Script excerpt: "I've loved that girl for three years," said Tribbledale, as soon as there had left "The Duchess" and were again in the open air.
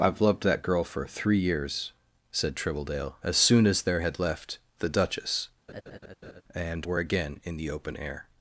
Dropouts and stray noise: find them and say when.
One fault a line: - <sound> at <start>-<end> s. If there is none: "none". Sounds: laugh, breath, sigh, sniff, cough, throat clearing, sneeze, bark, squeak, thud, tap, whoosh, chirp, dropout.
- laugh at 5.7-6.4 s